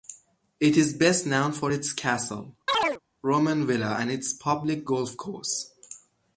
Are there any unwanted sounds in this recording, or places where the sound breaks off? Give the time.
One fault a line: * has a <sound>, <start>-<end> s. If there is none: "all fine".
* has a chirp, 2.7-3.0 s